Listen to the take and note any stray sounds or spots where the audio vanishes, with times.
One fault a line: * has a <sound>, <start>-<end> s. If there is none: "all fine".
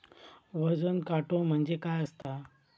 * has a dropout, 2.2-2.2 s